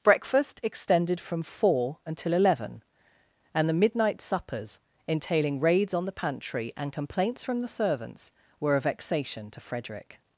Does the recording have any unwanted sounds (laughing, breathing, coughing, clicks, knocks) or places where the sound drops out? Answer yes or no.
no